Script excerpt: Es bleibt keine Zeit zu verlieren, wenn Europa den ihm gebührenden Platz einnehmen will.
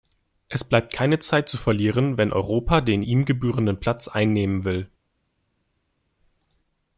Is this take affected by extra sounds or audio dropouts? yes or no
no